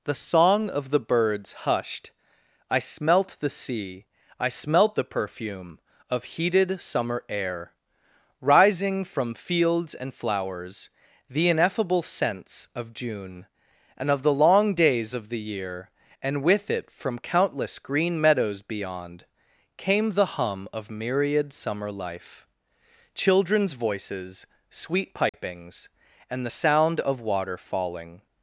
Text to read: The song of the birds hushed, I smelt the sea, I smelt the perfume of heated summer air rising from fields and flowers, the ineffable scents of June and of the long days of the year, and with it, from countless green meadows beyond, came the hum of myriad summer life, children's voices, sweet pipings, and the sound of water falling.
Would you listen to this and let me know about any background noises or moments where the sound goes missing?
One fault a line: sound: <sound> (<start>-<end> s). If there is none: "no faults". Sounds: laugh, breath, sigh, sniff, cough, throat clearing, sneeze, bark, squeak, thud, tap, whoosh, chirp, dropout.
sound: dropout (25.3-25.3 s)